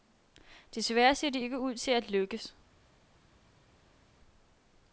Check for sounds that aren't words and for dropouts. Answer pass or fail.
pass